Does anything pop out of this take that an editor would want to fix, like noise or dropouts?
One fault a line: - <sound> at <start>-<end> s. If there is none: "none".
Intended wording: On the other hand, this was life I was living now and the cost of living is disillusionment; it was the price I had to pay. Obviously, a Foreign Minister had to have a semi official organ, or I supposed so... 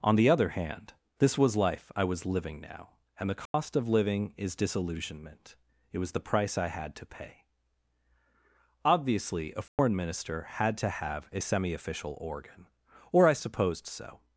- dropout at 3.5-3.5 s
- dropout at 9.7-9.8 s